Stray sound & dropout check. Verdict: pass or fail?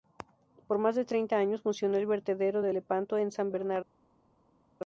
pass